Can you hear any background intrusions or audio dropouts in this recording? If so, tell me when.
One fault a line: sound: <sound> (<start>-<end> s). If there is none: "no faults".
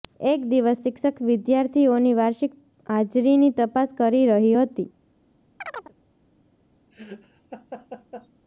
sound: chirp (5.6-5.9 s)
sound: laugh (6.9-8.3 s)